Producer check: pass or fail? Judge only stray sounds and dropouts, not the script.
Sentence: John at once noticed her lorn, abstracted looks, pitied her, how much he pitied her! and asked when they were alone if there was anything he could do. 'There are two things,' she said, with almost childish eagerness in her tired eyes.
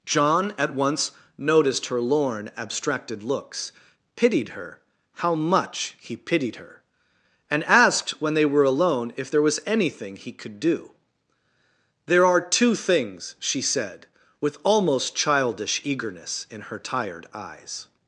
pass